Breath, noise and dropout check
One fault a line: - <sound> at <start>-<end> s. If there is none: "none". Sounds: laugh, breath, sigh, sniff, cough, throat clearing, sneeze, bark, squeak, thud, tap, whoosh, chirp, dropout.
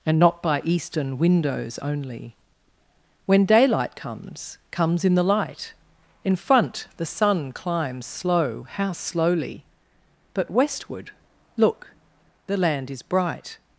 none